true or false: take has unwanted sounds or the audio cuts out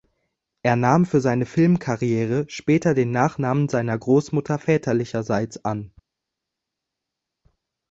false